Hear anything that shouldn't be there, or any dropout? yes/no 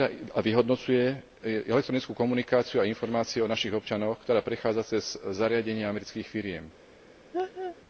yes